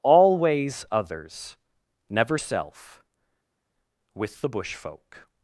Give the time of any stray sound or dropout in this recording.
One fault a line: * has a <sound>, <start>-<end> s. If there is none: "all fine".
all fine